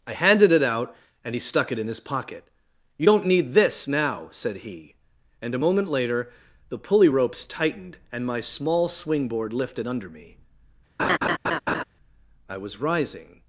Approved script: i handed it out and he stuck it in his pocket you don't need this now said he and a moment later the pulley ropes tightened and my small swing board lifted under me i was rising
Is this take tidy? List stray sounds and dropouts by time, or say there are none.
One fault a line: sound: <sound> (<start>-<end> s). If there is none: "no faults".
sound: laugh (11.0-11.8 s)